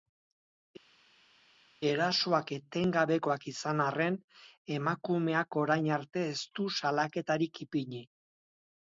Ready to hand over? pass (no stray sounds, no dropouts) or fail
pass